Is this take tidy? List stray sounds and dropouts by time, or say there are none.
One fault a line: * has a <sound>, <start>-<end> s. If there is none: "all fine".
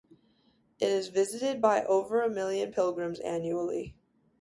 all fine